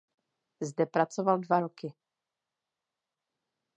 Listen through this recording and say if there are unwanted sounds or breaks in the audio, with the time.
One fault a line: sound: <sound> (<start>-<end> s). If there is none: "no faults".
no faults